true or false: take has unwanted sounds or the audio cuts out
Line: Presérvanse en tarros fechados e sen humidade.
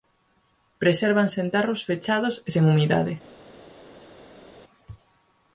false